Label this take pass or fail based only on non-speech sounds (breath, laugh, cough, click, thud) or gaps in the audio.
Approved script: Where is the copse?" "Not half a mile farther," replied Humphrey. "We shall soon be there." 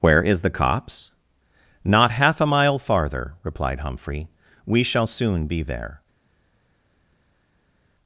pass